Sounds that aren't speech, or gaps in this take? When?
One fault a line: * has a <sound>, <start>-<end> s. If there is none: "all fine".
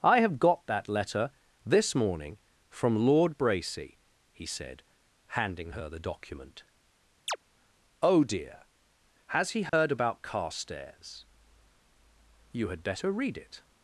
* has a chirp, 7.3-7.4 s
* has a dropout, 9.7-9.7 s